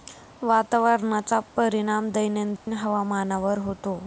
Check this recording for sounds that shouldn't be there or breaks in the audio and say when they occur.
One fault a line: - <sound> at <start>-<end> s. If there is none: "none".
- dropout at 2.6-2.7 s